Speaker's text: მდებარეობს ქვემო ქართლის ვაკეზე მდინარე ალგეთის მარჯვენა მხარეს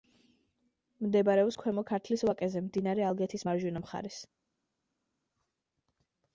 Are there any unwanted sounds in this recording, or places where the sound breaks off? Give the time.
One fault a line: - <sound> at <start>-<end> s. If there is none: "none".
none